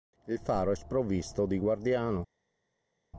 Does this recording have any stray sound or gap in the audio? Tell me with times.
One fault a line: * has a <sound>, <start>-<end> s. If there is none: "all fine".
all fine